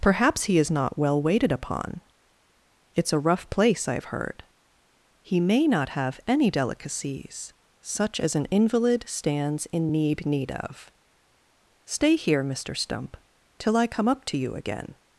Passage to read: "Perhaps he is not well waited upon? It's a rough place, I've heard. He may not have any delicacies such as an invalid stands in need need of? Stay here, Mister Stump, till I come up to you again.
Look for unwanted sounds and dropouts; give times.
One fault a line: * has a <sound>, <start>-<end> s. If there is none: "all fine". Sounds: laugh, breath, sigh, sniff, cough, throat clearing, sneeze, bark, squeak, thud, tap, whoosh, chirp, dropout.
all fine